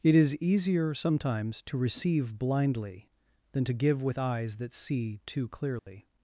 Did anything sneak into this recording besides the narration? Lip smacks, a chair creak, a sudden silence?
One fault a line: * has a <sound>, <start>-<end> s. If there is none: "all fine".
* has a dropout, 5.8-5.9 s